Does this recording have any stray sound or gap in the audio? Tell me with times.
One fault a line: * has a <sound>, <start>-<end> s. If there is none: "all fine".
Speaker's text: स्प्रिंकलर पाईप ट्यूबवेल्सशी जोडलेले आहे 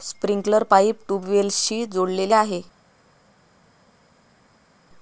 all fine